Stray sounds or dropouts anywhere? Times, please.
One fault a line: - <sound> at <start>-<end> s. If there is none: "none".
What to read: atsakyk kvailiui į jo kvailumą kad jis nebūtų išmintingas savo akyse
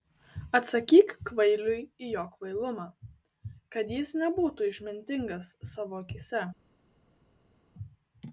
none